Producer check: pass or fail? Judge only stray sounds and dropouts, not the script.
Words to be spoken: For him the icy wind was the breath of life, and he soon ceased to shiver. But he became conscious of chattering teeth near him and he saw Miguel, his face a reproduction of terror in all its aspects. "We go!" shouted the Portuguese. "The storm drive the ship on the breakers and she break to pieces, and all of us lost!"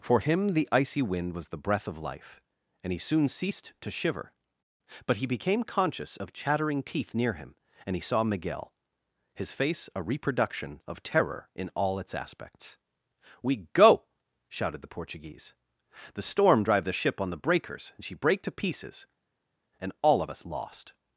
pass